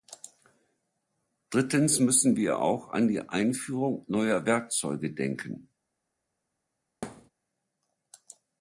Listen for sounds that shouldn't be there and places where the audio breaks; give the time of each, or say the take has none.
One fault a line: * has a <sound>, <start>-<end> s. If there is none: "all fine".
* has a thud, 7.0-7.3 s